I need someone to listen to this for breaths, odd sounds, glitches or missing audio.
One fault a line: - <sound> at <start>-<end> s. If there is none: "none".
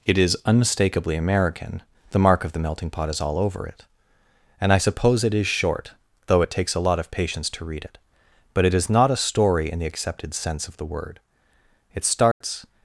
- dropout at 12.3-12.4 s